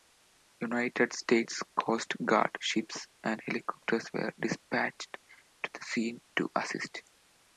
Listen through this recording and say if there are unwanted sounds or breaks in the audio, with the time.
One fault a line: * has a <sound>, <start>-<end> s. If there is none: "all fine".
all fine